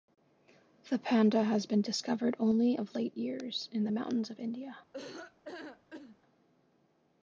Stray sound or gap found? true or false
true